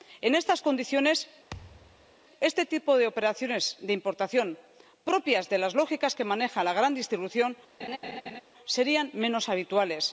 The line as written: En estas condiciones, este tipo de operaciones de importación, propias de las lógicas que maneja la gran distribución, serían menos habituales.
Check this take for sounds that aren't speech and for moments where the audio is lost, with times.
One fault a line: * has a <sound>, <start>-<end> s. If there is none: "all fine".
* has a thud, 1.5-2.1 s
* has a laugh, 7.8-8.4 s